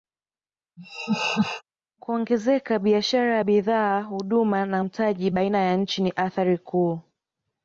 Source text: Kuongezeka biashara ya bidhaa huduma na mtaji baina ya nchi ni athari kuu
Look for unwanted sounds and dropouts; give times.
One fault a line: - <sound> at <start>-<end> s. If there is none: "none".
- laugh at 0.8-1.6 s